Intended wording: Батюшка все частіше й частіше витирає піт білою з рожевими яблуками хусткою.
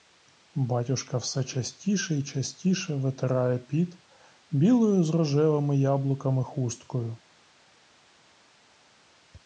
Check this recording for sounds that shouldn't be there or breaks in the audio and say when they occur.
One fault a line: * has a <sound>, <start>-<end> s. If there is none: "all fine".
all fine